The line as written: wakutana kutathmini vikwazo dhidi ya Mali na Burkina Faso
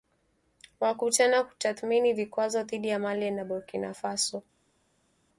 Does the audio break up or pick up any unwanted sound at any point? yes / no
no